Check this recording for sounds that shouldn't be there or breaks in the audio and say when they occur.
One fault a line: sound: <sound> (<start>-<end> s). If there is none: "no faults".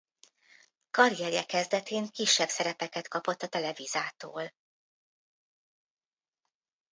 no faults